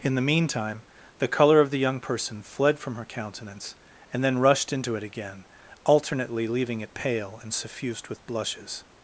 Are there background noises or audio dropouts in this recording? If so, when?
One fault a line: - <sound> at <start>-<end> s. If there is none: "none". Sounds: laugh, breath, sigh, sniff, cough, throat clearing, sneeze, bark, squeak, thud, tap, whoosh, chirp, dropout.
none